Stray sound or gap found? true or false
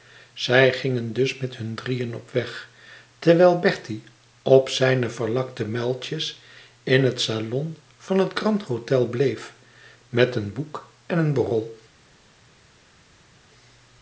false